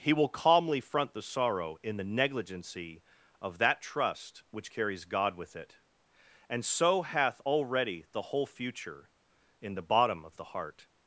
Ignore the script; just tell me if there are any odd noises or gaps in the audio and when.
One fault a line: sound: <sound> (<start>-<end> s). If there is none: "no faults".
no faults